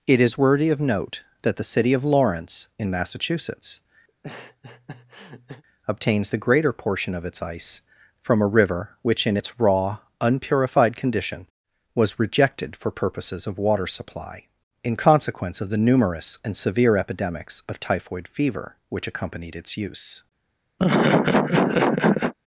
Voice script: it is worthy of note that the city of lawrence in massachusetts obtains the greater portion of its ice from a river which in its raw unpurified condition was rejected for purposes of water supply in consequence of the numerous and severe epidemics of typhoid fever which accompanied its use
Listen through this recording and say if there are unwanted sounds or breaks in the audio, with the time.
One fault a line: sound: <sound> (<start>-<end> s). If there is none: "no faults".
sound: laugh (4.1-5.6 s)
sound: laugh (20.8-22.3 s)